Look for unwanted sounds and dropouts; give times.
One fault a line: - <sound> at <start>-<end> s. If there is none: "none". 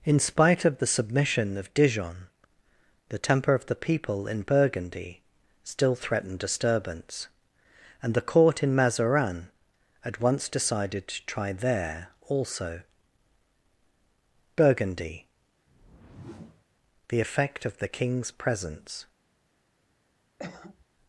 - whoosh at 15.7-16.7 s
- cough at 20.4-20.8 s